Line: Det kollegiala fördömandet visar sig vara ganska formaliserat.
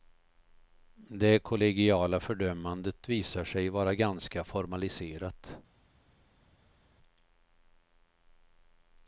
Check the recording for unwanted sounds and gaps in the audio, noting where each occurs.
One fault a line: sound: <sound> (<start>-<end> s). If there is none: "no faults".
no faults